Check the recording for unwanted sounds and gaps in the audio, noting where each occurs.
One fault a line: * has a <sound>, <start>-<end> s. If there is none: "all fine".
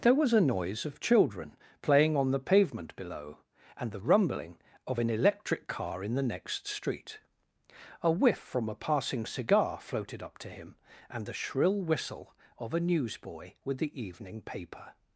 all fine